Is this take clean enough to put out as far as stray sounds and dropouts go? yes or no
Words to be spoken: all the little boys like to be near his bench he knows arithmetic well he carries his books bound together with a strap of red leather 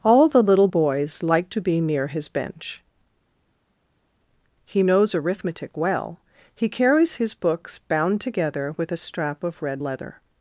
yes